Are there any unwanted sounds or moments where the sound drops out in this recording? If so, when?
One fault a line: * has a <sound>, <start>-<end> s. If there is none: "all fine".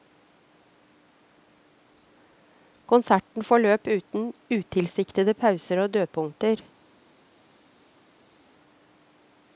all fine